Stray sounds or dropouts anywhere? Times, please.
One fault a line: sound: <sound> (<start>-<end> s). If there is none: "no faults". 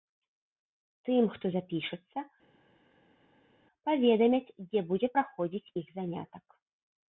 no faults